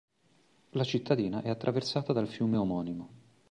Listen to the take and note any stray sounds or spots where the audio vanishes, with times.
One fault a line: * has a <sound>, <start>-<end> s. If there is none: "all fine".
all fine